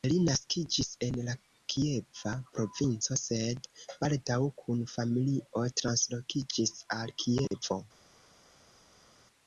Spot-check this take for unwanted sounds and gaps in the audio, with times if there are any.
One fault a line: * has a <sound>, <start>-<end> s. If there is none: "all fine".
all fine